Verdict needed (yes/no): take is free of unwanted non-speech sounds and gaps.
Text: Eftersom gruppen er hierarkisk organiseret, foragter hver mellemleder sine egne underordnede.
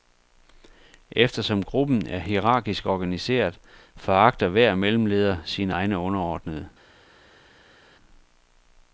yes